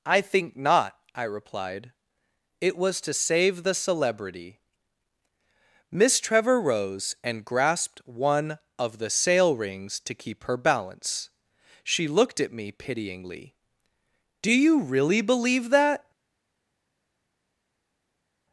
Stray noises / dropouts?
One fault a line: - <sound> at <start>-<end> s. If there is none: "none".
none